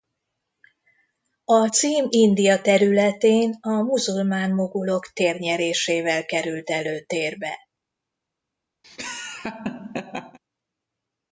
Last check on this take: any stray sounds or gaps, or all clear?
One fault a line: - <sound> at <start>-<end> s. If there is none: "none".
- laugh at 8.8-10.4 s